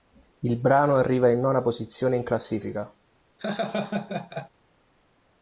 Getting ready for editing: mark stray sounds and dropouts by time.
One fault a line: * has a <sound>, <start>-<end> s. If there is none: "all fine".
* has a laugh, 3.4-4.5 s